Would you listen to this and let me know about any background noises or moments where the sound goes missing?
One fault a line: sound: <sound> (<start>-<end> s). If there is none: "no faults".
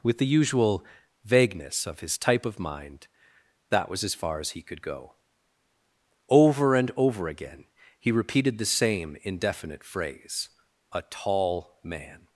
no faults